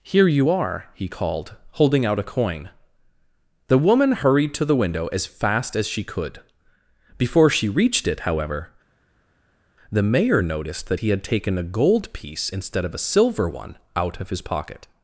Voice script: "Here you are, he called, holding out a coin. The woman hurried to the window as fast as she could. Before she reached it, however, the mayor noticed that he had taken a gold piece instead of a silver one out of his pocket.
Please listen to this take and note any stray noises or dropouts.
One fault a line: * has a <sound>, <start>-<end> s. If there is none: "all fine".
all fine